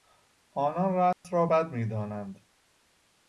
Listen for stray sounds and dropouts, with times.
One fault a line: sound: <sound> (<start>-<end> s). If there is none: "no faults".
sound: dropout (1.1-1.2 s)